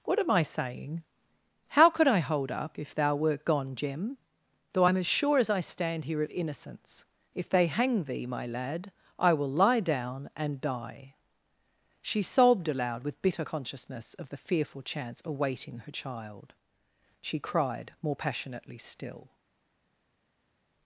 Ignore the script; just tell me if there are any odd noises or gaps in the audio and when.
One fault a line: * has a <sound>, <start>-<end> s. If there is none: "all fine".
all fine